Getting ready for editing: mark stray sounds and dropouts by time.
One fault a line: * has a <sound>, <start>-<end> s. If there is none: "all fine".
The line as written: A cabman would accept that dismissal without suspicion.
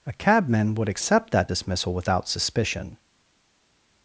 all fine